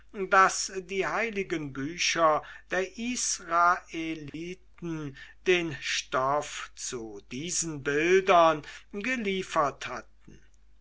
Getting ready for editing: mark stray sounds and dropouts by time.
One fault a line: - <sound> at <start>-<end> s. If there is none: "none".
- dropout at 4.3-4.3 s